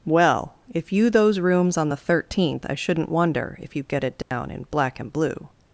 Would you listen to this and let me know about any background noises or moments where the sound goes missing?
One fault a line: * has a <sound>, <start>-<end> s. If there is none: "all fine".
* has a dropout, 4.2-4.3 s